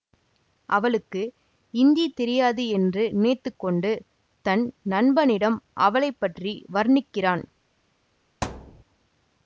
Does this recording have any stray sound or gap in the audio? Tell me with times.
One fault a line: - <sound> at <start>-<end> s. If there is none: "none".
- thud at 8.4-8.8 s